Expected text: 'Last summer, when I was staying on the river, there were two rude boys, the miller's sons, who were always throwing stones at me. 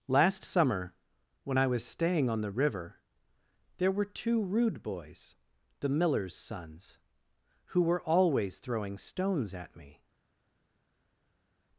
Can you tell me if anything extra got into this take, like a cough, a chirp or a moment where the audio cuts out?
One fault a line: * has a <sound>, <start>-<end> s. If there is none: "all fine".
all fine